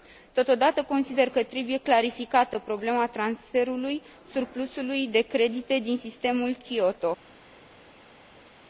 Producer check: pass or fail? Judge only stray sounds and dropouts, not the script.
pass